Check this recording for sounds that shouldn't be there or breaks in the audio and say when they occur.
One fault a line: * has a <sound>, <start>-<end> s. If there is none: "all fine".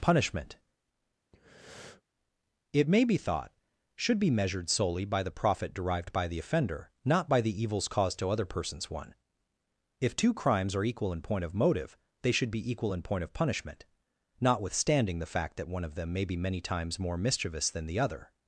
* has a breath, 1.3-2.0 s